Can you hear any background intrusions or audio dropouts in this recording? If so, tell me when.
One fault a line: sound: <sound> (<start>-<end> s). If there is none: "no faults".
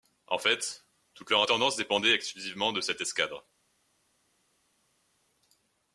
no faults